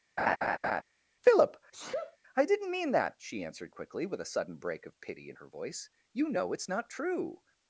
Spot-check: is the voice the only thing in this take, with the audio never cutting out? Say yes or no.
no